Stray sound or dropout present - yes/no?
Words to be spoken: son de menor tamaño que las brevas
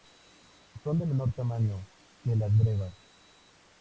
no